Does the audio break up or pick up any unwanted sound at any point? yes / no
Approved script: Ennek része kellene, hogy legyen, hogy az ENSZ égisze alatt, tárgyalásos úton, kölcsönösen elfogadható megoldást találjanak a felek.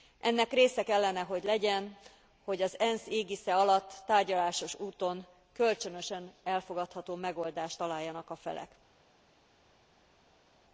no